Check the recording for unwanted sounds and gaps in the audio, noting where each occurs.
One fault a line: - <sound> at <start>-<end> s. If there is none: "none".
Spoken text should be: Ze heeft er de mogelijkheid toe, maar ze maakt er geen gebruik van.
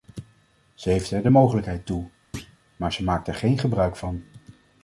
- thud at 2.3-2.6 s